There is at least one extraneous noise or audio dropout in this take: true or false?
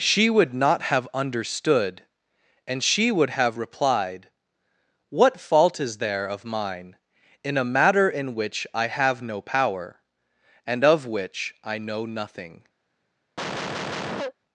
true